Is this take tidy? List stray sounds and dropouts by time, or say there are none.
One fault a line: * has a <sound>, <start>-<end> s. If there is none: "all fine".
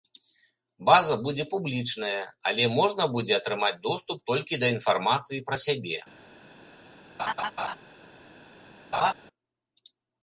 * has a laugh, 7.2-7.8 s
* has a laugh, 8.9-9.1 s